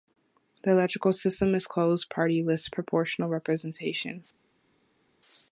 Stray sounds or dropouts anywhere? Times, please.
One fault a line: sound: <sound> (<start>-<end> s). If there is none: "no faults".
no faults